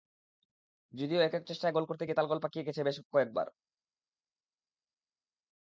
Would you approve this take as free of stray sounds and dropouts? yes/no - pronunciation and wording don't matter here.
yes